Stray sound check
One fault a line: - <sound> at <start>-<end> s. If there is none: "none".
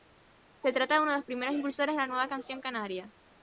none